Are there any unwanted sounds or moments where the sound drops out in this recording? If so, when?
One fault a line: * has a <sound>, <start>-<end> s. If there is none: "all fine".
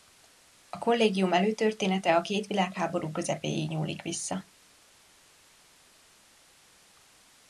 all fine